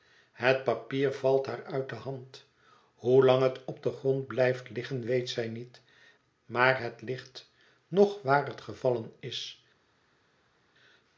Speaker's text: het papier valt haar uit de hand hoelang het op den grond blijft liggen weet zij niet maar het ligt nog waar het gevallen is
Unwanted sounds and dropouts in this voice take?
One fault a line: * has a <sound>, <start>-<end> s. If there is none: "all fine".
all fine